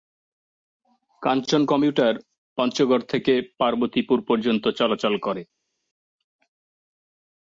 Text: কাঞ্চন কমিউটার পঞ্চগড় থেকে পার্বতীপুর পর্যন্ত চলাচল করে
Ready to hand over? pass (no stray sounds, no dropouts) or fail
pass